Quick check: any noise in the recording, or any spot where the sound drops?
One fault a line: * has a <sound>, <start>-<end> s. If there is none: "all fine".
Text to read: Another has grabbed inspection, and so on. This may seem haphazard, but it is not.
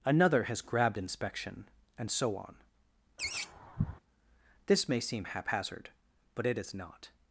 * has a laugh, 3.2-4.0 s